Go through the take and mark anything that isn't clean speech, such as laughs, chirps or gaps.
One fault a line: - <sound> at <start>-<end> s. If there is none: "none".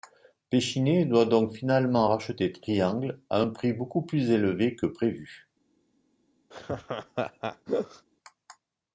- laugh at 6.5-8.1 s